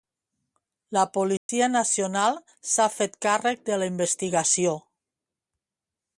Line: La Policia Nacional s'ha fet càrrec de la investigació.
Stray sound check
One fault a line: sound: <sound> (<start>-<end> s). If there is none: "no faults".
sound: dropout (1.4-1.5 s)